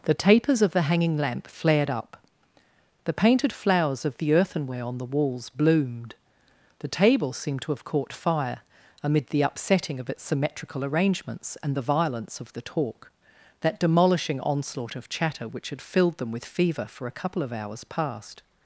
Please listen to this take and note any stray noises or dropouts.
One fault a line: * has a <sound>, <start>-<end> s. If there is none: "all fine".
all fine